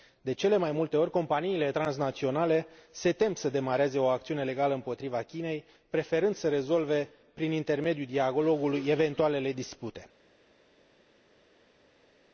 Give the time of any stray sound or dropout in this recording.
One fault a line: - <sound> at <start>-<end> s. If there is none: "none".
none